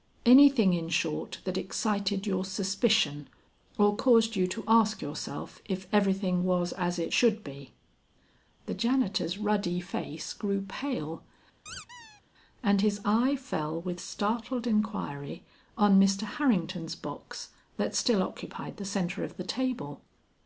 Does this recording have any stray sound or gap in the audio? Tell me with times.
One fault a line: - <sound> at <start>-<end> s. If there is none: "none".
- squeak at 11.7-12.2 s